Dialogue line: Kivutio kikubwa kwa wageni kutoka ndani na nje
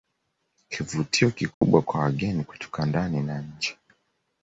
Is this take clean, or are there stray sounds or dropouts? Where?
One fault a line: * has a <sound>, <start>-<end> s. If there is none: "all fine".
* has a dropout, 1.5-1.6 s